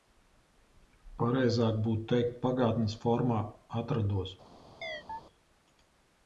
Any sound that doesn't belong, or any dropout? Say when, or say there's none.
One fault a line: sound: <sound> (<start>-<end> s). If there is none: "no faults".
sound: chirp (4.8-5.2 s)